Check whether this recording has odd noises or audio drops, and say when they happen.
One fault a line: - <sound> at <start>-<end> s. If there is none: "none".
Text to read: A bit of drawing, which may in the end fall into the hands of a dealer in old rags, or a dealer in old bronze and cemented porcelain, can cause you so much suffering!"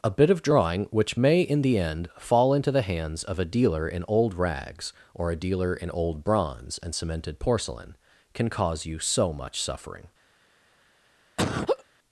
- laugh at 11.4-11.8 s